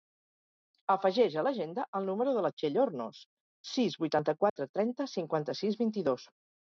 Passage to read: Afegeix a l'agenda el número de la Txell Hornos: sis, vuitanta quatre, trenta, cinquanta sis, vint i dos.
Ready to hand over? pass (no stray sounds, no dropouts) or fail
fail